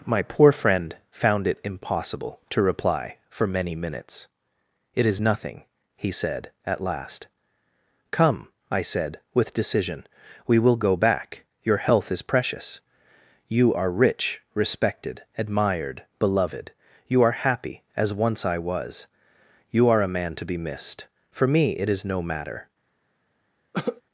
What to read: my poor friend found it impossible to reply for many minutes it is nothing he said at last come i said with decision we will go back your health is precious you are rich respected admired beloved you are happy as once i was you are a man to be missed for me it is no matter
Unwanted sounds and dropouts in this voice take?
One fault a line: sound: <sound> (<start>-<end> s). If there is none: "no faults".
sound: cough (23.7-24.0 s)